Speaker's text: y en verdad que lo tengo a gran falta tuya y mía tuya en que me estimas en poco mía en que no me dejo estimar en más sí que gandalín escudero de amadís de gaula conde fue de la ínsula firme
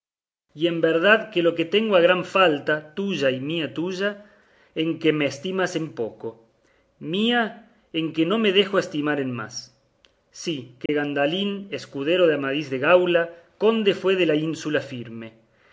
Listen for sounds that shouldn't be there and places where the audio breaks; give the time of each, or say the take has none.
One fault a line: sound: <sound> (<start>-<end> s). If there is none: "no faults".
sound: dropout (10.9-10.9 s)